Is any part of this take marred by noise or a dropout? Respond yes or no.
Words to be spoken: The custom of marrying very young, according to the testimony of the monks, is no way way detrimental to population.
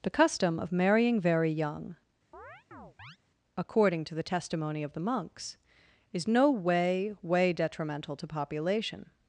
yes